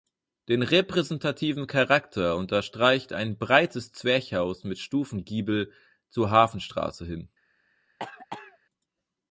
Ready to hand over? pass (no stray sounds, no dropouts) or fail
fail